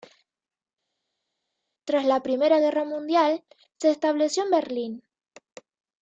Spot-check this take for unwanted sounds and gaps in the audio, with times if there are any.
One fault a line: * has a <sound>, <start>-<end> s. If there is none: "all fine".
all fine